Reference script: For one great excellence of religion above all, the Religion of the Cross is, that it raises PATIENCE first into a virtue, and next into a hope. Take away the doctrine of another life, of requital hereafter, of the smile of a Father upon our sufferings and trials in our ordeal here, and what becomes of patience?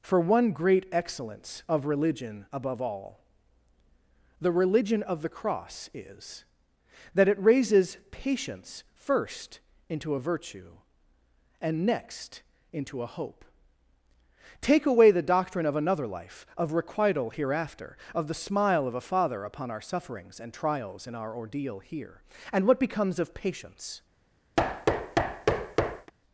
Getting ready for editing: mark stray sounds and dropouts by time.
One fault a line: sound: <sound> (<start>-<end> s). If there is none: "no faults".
sound: thud (24.6-26.1 s)